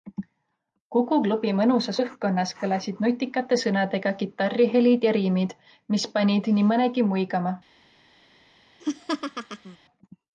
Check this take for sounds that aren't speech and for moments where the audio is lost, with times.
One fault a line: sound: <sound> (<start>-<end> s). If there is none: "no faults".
sound: laugh (8.8-9.8 s)